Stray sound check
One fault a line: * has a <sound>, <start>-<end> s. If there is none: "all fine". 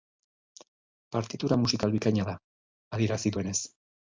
all fine